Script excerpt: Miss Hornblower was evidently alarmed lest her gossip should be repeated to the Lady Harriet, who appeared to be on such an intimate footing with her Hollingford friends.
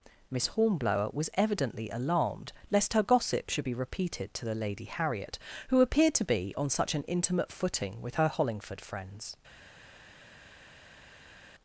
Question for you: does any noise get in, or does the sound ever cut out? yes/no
no